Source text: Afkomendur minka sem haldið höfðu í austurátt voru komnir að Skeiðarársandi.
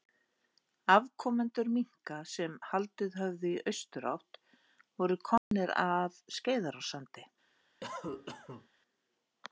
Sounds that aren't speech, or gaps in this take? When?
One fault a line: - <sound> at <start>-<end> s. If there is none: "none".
- dropout at 5.4-5.5 s
- cough at 7.8-8.7 s